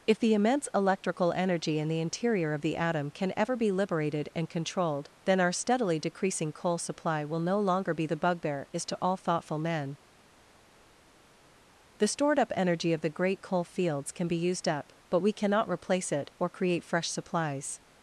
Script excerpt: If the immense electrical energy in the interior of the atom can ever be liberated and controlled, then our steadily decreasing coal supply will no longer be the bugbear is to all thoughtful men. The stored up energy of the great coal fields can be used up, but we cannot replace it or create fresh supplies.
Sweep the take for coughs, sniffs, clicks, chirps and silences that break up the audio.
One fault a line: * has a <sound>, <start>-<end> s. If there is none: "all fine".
all fine